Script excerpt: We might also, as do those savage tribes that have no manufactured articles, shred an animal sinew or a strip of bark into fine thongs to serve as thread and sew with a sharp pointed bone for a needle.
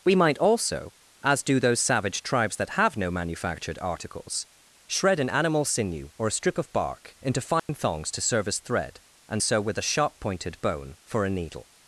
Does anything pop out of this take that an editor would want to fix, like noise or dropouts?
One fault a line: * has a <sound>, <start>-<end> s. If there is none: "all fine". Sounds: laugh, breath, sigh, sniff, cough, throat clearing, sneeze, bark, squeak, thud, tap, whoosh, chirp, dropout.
* has a dropout, 7.6-7.7 s